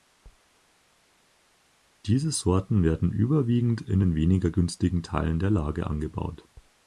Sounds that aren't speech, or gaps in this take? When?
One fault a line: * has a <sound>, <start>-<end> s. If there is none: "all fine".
all fine